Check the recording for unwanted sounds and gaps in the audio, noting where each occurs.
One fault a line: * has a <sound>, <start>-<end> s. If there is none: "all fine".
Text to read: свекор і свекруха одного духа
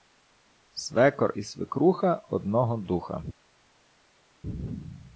all fine